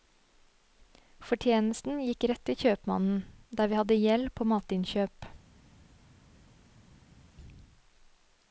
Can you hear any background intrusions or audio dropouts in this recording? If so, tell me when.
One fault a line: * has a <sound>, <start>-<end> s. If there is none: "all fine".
all fine